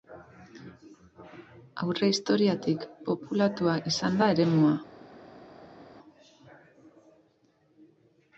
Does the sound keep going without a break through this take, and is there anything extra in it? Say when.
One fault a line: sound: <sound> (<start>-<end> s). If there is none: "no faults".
no faults